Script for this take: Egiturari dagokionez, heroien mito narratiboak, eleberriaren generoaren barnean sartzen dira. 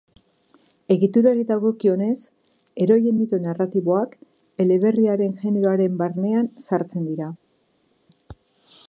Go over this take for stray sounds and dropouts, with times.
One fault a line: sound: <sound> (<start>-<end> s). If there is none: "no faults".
no faults